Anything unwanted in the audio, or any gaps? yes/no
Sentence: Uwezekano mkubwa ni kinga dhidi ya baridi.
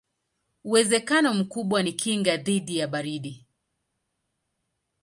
no